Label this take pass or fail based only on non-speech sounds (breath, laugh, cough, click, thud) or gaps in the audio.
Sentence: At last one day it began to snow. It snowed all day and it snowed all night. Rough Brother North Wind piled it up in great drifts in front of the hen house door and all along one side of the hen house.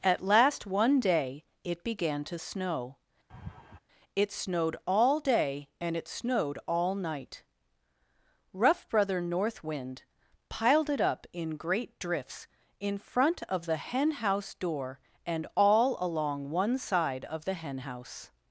fail